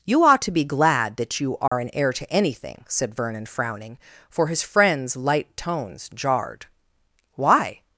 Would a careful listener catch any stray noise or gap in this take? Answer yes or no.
yes